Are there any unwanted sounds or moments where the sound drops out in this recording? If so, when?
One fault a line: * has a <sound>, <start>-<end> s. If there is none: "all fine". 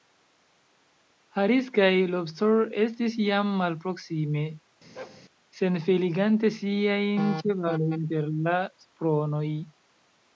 * has a bark, 5.0-5.2 s